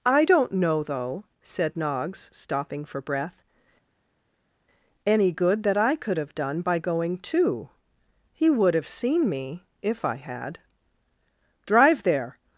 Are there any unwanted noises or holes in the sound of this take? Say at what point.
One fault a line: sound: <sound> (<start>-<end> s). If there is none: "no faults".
no faults